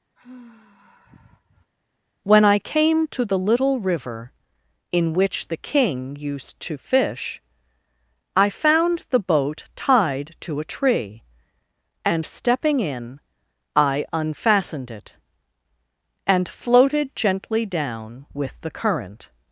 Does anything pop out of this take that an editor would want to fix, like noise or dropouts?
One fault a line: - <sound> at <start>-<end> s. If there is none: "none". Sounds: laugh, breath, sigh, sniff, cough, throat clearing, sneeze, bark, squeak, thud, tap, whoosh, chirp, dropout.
- sigh at 0.2-1.7 s